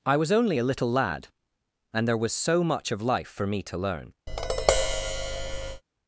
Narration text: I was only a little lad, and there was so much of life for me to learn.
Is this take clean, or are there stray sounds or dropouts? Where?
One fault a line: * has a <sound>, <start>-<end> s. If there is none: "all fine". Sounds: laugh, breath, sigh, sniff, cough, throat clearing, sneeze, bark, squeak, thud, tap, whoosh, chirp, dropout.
* has a tap, 4.3-5.8 s